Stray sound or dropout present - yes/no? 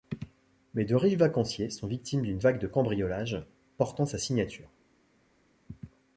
no